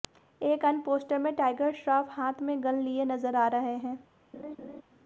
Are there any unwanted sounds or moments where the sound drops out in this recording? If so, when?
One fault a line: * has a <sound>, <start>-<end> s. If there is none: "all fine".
* has a laugh, 4.3-4.8 s